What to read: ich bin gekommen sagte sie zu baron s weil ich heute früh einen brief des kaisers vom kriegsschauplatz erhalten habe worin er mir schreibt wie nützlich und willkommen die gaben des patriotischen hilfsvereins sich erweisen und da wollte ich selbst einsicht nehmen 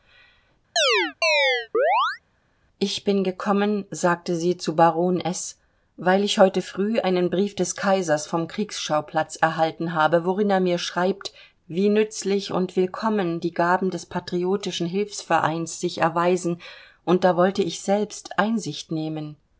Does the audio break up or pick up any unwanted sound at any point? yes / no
yes